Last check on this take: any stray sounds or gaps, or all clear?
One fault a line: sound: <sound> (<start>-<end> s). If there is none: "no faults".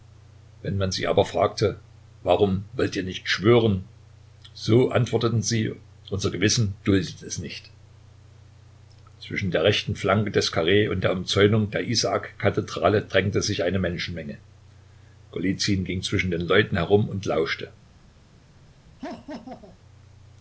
sound: laugh (19.0-19.8 s)